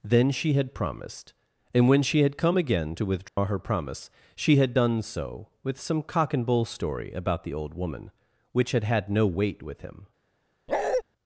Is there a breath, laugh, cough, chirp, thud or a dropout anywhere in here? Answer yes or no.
yes